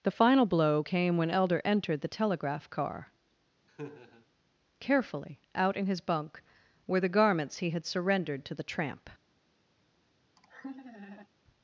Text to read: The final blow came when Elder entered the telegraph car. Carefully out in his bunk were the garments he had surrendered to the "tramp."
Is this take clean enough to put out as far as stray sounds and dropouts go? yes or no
no